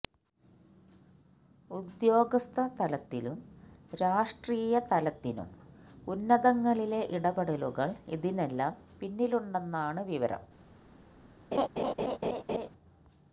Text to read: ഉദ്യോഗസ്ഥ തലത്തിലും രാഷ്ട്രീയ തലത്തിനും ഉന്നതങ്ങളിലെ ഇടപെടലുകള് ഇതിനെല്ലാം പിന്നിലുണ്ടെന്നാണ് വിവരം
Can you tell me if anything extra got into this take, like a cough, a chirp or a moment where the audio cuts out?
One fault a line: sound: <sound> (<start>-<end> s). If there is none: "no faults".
sound: laugh (11.5-12.7 s)